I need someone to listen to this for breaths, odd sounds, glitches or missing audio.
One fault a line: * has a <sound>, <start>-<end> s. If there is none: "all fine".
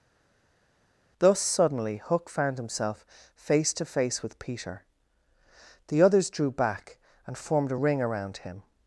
all fine